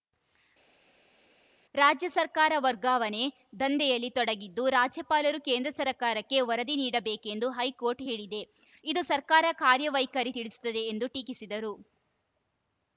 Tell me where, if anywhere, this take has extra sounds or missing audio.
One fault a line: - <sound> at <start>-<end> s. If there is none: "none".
none